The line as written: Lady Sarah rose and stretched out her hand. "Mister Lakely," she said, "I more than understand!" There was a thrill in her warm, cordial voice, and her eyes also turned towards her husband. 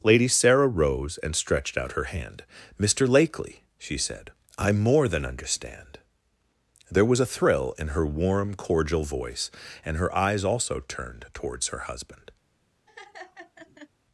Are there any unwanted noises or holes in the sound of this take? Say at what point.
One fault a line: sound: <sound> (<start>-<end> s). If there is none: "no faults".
sound: laugh (12.9-13.9 s)